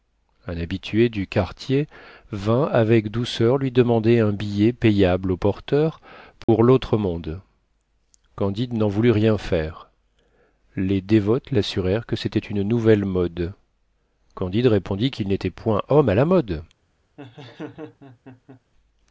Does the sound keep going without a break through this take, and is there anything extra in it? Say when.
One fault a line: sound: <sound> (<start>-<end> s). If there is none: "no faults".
sound: dropout (6.4-6.5 s)
sound: laugh (17.2-18.6 s)